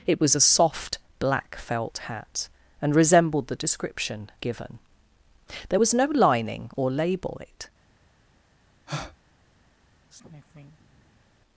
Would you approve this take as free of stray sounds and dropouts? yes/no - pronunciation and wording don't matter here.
no